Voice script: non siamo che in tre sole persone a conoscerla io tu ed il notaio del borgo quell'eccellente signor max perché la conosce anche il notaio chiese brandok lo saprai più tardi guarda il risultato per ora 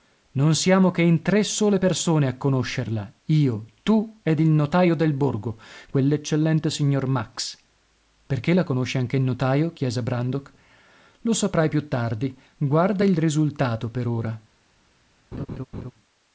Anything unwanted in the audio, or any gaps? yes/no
yes